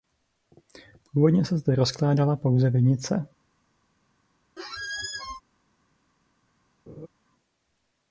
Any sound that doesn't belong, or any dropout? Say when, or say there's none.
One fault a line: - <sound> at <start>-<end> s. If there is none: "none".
- squeak at 4.6-5.4 s
- laugh at 6.9-7.1 s